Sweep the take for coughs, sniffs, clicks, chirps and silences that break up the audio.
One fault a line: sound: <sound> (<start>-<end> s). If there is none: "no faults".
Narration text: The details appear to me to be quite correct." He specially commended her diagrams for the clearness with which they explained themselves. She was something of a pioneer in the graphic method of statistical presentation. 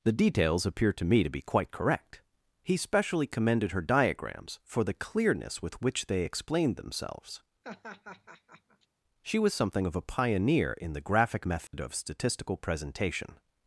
sound: laugh (7.6-8.9 s)
sound: dropout (11.7-11.7 s)